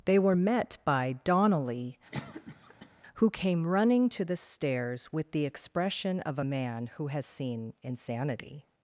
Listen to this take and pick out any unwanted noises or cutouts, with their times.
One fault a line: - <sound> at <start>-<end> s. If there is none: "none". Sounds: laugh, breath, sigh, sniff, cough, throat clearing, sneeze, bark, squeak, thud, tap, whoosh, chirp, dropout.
- cough at 2.1-2.9 s